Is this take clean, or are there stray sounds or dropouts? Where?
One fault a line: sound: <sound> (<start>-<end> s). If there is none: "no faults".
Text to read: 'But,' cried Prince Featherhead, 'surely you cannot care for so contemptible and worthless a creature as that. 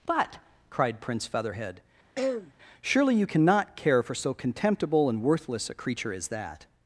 sound: throat clearing (2.2-2.5 s)